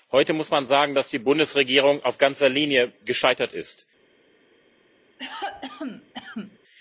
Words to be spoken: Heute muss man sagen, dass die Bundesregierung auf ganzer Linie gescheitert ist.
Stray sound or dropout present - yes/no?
yes